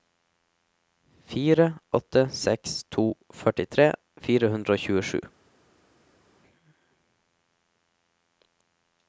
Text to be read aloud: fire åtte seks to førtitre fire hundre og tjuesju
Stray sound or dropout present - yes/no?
no